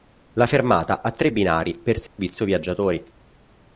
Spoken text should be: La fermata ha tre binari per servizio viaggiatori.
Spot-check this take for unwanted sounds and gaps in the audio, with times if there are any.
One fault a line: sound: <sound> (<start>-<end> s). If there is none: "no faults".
sound: dropout (2.1-2.2 s)